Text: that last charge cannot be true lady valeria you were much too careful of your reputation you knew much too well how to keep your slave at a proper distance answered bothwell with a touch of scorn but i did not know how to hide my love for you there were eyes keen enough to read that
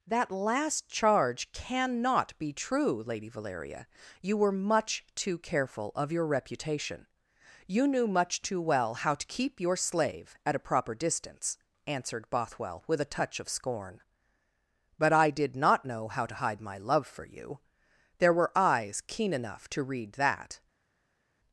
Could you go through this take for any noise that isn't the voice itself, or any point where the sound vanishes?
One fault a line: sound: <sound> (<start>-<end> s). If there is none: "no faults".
no faults